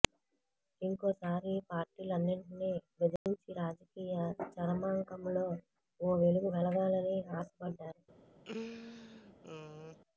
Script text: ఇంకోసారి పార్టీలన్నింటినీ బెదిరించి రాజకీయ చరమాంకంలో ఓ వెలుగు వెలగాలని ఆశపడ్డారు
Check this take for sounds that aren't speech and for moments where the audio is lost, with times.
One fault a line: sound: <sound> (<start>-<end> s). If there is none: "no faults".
sound: dropout (3.2-3.3 s)
sound: laugh (8.4-10.0 s)